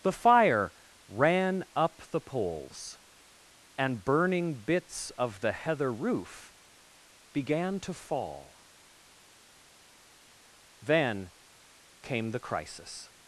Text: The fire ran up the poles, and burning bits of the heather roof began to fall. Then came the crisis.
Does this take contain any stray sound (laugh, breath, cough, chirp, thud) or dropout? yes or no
no